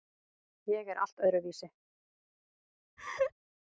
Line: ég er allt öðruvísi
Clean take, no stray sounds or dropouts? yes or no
no